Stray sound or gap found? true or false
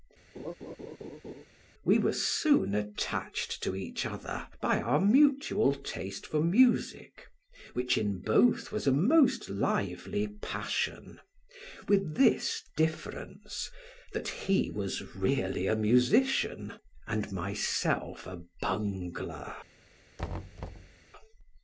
true